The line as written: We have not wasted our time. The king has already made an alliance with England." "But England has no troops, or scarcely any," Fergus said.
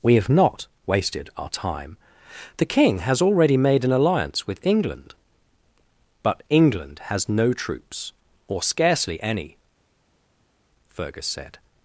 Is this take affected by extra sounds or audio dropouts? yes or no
no